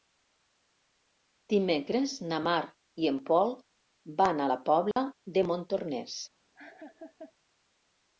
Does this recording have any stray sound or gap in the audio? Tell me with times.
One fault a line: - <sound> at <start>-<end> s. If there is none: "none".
- dropout at 4.9-5.0 s
- laugh at 6.5-7.3 s